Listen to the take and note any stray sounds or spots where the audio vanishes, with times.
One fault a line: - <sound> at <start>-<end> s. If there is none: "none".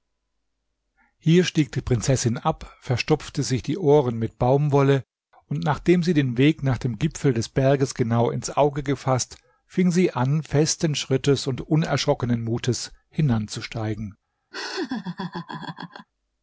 - laugh at 14.5-16.1 s